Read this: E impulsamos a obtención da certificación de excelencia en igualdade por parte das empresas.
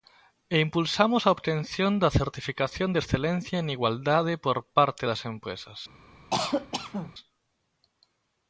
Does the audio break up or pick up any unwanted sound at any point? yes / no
yes